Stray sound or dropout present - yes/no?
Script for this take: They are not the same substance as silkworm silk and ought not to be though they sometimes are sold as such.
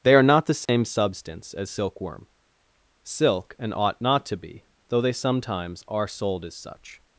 yes